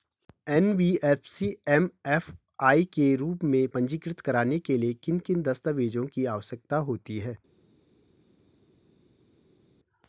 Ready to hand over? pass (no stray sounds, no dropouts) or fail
pass